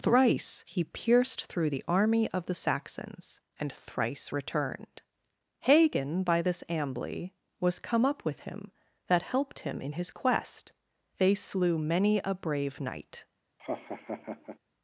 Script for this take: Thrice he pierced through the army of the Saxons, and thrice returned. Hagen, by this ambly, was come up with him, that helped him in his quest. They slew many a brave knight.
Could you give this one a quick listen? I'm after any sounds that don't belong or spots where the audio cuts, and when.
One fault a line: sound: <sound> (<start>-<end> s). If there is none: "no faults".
sound: laugh (13.6-14.6 s)